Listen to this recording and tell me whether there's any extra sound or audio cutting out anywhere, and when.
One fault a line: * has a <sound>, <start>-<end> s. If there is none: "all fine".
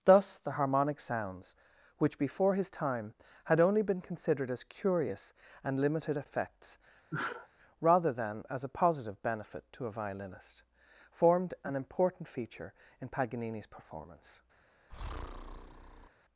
* has a sneeze, 7.1-7.5 s
* has a breath, 14.9-16.1 s